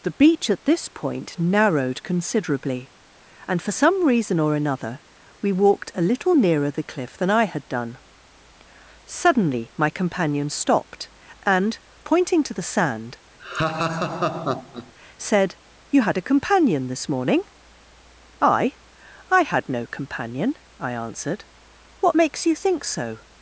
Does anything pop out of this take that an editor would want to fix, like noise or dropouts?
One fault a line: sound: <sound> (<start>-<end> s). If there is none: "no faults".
sound: laugh (13.4-14.9 s)